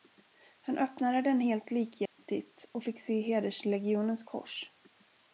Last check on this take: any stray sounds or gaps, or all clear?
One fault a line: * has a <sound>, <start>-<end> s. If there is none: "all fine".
* has a dropout, 2.1-2.2 s